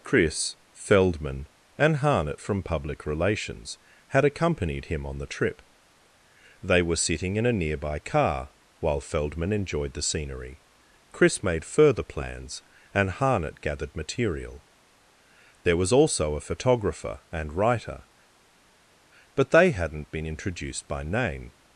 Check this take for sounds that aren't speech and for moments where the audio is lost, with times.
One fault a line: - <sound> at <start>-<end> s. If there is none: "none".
none